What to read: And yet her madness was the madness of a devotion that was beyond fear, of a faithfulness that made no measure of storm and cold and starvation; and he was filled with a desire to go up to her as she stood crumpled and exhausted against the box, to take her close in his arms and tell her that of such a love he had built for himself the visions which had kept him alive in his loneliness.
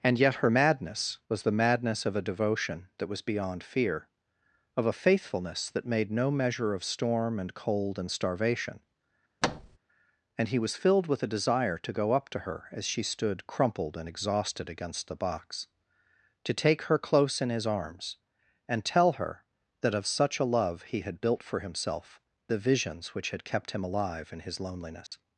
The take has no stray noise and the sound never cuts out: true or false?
false